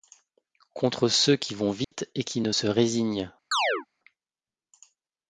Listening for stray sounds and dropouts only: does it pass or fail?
fail